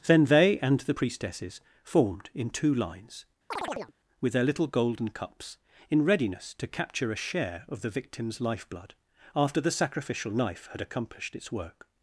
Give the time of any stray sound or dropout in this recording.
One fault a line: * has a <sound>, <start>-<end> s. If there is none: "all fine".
* has a chirp, 3.5-3.9 s